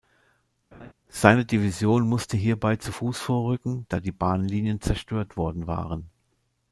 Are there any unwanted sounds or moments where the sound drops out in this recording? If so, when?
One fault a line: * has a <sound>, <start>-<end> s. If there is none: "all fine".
* has a laugh, 0.7-0.9 s